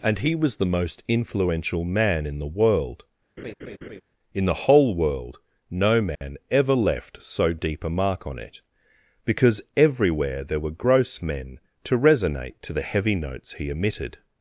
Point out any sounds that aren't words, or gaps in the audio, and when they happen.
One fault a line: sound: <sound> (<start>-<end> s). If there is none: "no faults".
sound: laugh (3.4-4.0 s)
sound: dropout (6.2-6.2 s)